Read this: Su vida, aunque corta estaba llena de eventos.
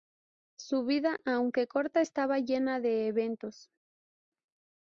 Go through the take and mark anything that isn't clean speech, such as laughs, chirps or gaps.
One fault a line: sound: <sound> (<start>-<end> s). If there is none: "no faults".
no faults